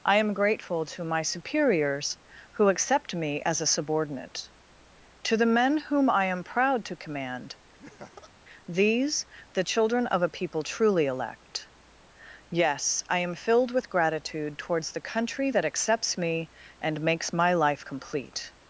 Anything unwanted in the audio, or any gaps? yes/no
yes